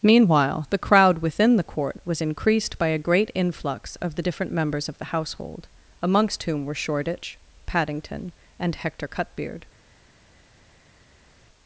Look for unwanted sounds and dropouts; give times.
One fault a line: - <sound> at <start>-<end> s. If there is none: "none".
none